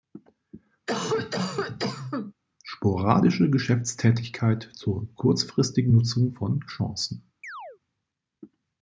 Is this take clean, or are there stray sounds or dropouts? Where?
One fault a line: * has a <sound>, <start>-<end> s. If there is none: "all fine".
* has a cough, 0.9-2.3 s
* has a chirp, 7.4-7.8 s